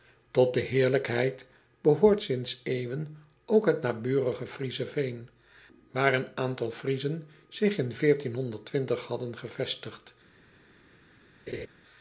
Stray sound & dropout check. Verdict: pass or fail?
fail